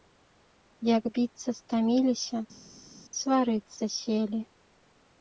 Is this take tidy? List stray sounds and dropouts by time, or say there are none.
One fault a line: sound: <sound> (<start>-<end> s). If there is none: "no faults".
no faults